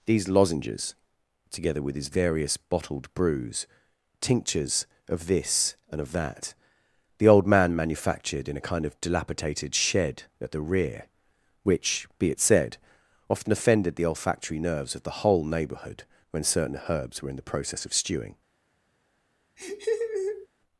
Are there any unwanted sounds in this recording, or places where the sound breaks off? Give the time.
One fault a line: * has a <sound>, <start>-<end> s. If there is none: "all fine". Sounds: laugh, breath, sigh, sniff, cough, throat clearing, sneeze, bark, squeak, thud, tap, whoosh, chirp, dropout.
* has a laugh, 19.6-20.5 s